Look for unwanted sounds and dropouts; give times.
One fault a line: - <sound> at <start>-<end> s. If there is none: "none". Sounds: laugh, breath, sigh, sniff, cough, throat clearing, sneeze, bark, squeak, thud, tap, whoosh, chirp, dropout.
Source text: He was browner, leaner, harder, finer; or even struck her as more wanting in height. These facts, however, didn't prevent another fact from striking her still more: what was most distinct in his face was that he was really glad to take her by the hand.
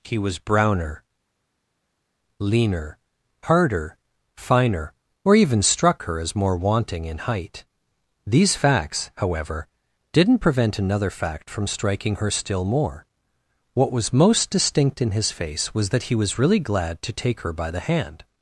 none